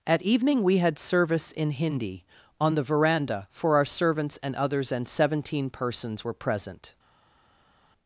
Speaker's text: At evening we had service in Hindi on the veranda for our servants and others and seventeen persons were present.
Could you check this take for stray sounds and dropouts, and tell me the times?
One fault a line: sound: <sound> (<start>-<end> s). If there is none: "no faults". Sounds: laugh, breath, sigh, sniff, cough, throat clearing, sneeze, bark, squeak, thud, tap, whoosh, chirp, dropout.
no faults